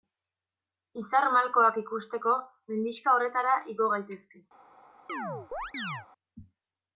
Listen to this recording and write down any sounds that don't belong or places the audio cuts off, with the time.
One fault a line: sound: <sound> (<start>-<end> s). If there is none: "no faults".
sound: chirp (5.1-6.1 s)